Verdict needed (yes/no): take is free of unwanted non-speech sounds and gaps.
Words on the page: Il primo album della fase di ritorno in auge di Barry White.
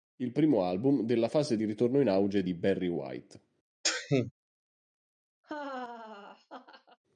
no